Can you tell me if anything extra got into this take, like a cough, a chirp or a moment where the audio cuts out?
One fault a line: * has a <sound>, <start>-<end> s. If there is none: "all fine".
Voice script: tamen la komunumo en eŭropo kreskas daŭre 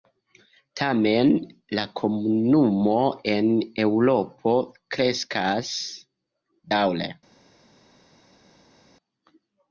all fine